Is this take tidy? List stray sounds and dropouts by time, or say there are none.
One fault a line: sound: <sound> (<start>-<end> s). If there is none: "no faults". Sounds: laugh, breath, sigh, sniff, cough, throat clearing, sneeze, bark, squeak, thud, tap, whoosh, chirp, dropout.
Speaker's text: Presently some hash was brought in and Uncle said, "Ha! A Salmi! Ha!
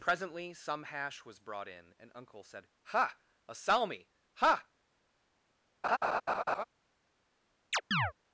sound: laugh (5.8-6.6 s)
sound: chirp (7.7-8.1 s)